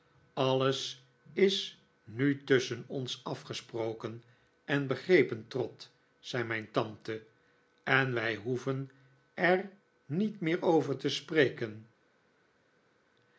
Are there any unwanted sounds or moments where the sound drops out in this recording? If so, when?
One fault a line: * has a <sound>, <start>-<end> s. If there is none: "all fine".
all fine